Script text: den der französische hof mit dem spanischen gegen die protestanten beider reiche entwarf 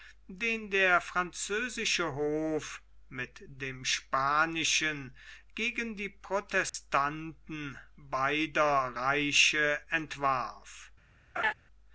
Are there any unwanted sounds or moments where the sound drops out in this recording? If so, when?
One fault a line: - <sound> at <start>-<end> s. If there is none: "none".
- dropout at 6.7-6.7 s
- laugh at 11.4-11.5 s